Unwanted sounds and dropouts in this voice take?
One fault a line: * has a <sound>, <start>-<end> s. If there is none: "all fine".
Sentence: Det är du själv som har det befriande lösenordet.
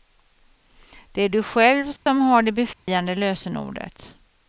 * has a dropout, 2.0-2.1 s
* has a dropout, 2.7-2.9 s